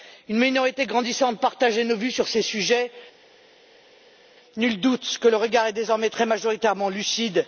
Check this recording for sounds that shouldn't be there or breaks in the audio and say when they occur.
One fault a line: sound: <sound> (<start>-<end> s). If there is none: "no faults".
no faults